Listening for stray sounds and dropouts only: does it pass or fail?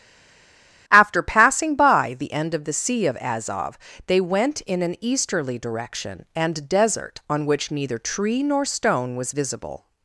pass